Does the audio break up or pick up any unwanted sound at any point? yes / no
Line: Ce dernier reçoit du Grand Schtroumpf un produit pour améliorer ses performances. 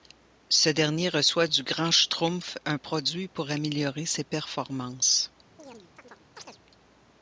yes